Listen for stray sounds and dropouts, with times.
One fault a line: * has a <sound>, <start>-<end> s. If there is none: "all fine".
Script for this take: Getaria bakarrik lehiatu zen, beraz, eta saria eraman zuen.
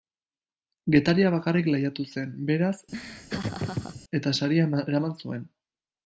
* has a laugh, 2.9-4.0 s